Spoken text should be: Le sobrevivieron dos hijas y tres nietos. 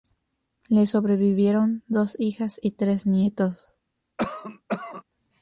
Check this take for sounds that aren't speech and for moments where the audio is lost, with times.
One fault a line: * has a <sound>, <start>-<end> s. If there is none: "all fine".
* has a cough, 4.2-5.0 s